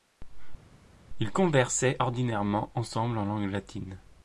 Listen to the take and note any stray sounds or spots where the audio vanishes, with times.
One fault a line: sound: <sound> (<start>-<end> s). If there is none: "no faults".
no faults